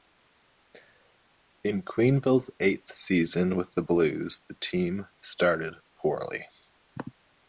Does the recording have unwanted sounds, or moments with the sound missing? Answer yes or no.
no